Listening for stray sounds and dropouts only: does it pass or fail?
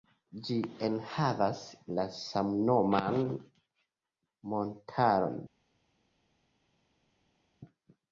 pass